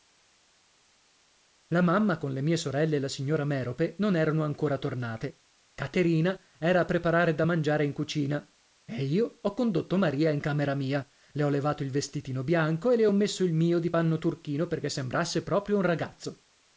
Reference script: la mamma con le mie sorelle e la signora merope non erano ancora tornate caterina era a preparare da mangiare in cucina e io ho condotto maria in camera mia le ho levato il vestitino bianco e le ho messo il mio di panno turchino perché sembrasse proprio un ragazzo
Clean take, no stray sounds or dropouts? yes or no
yes